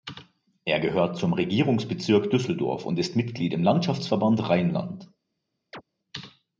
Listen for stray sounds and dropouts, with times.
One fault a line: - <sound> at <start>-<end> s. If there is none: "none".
- chirp at 5.7-5.8 s